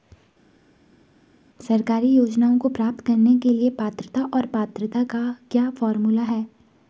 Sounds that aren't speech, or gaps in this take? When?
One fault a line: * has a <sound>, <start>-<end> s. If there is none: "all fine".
all fine